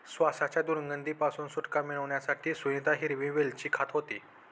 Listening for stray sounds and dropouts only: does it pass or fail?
pass